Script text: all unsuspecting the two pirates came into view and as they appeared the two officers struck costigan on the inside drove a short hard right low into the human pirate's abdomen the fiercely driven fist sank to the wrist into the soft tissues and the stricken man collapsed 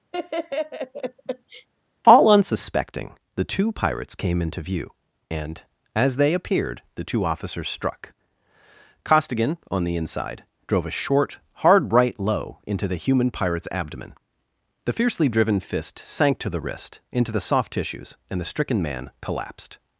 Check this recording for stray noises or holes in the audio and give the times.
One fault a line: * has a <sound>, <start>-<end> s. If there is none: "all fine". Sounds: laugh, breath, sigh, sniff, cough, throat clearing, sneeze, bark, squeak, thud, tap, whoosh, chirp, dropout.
* has a laugh, 0.1-1.7 s